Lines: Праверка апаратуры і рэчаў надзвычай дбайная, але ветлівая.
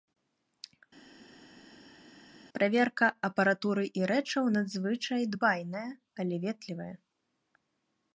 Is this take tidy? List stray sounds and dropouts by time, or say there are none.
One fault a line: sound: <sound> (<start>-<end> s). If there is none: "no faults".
no faults